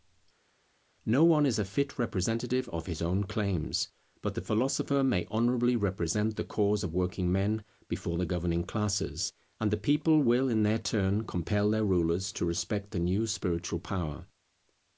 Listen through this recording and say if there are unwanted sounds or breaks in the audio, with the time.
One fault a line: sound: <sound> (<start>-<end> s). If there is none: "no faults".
no faults